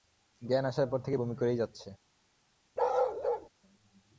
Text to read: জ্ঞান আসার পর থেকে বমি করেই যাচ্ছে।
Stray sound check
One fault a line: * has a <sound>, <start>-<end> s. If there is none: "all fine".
* has a bark, 2.8-3.5 s